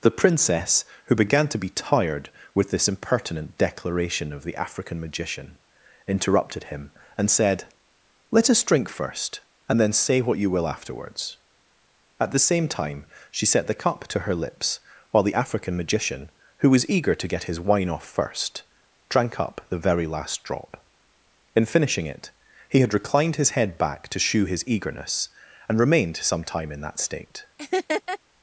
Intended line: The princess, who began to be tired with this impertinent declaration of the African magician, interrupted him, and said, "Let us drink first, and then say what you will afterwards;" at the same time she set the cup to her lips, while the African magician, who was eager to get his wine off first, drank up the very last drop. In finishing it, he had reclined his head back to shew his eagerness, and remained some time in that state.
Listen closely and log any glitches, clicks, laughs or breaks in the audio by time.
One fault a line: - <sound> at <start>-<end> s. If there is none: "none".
- laugh at 27.6-28.2 s